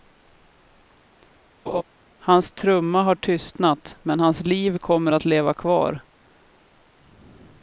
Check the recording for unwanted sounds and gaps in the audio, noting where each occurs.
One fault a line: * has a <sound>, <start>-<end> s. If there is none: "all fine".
* has a laugh, 1.7-1.8 s